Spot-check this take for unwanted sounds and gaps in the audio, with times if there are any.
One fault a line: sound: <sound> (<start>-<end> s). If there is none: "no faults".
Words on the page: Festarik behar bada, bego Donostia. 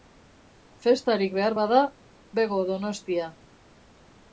no faults